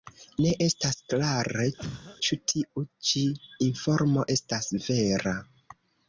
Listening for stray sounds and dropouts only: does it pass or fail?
fail